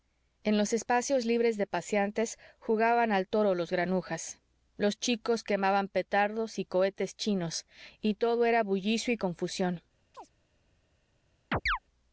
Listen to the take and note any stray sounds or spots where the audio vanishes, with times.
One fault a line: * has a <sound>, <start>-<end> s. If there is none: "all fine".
* has a chirp, 10.1-10.3 s
* has a chirp, 11.5-11.8 s